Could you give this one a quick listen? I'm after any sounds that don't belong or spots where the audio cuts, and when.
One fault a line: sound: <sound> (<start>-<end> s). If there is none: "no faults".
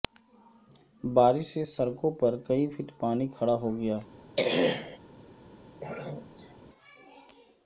sound: throat clearing (4.4-5.0 s)
sound: throat clearing (5.8-6.6 s)